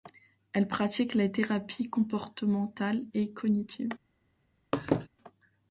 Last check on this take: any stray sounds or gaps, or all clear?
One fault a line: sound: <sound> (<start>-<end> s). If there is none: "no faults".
sound: laugh (4.7-5.1 s)